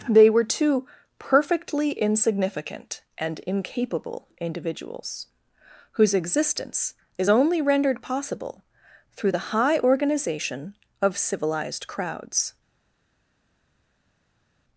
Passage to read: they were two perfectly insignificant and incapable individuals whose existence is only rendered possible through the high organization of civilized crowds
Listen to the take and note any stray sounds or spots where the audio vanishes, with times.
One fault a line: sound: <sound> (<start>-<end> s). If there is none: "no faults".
no faults